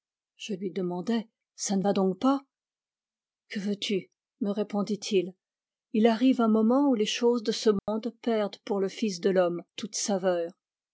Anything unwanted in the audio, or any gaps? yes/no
yes